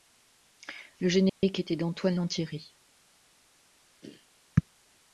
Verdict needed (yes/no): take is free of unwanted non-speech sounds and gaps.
no